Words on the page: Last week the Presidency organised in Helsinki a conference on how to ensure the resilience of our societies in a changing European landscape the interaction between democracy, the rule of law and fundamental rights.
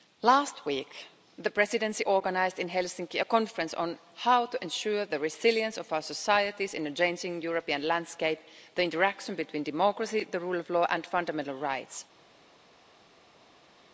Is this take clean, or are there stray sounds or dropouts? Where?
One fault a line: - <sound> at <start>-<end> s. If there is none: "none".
none